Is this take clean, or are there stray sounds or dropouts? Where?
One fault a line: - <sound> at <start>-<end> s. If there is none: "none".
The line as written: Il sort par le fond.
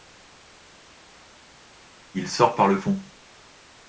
none